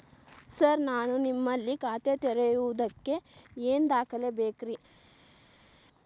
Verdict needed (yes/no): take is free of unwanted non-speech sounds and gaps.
yes